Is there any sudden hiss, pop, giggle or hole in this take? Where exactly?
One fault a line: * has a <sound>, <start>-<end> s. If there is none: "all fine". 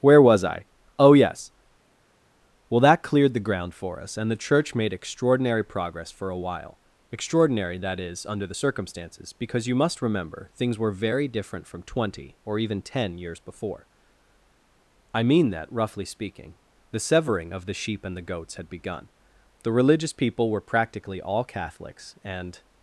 all fine